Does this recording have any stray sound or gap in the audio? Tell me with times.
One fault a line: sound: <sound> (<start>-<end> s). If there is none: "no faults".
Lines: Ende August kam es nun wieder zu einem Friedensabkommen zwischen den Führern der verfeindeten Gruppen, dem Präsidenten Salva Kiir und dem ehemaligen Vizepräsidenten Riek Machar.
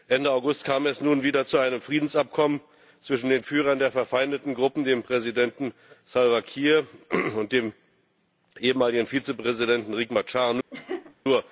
sound: laugh (10.7-11.2 s)